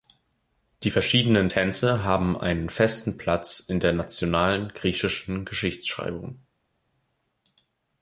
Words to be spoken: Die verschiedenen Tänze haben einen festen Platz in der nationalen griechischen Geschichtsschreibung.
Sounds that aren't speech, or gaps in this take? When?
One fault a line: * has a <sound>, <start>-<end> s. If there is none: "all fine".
all fine